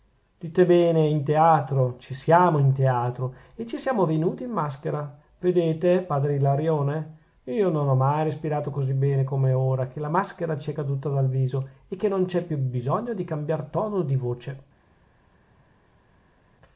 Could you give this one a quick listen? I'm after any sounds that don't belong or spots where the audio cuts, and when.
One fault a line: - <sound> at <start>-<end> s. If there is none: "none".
none